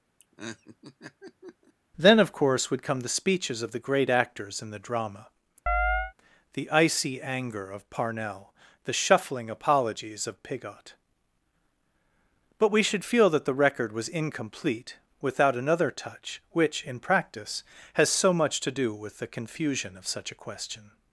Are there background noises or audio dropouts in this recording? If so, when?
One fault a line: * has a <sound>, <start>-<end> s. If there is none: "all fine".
* has a laugh, 0.2-1.7 s
* has a chirp, 5.7-6.1 s